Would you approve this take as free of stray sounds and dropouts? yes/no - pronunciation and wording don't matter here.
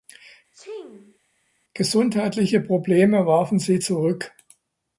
no